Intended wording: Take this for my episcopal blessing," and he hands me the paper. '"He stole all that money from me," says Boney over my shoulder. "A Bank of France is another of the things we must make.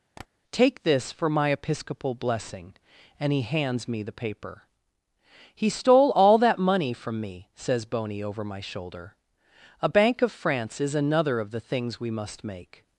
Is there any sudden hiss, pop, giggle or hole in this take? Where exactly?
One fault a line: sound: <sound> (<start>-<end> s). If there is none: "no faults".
sound: tap (0.2-0.3 s)